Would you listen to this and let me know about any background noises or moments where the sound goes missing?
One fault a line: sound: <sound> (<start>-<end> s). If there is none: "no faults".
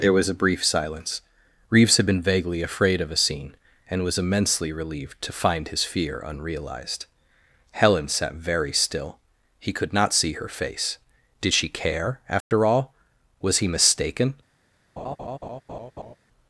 sound: dropout (12.4-12.5 s)
sound: laugh (15.0-16.2 s)